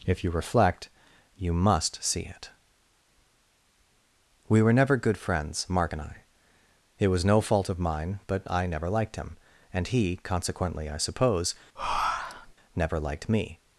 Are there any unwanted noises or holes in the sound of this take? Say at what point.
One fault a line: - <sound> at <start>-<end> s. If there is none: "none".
- breath at 11.8-12.5 s